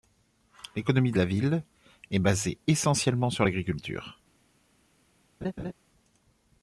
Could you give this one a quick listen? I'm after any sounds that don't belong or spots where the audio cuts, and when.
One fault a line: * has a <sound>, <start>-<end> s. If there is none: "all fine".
* has a laugh, 5.4-5.7 s